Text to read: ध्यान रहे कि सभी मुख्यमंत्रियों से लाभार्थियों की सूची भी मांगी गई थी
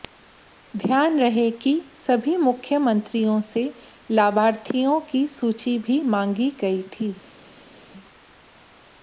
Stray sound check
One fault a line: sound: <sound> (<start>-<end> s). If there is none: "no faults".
no faults